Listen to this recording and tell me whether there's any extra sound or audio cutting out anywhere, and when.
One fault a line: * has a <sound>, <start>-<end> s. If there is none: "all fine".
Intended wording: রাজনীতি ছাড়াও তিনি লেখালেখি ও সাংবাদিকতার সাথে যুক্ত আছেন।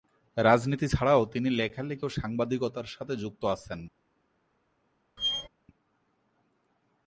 * has a squeak, 5.2-5.5 s